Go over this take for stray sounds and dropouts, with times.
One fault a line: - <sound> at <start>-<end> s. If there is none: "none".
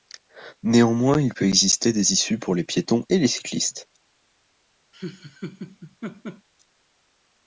- laugh at 4.9-6.5 s